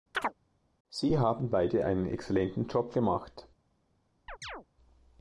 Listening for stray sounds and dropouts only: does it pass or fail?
fail